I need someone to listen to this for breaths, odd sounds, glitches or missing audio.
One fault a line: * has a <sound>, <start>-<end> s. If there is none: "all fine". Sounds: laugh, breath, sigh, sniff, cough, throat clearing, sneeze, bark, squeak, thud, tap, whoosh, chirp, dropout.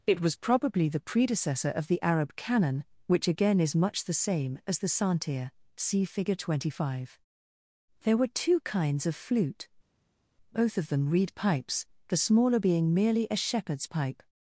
all fine